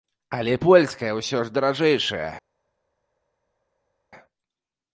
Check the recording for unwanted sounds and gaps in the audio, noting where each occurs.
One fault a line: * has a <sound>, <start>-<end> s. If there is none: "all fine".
all fine